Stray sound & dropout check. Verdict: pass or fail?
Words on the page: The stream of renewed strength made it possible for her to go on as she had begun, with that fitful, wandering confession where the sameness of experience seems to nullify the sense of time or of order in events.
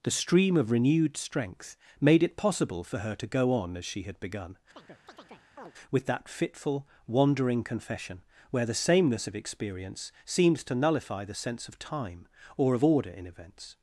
fail